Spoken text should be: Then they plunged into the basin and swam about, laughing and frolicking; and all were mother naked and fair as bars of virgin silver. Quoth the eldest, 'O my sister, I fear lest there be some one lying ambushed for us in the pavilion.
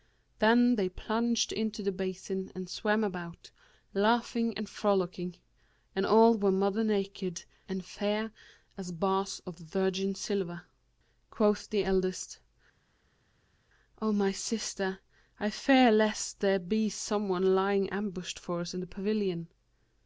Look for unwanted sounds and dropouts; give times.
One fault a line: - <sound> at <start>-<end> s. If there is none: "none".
none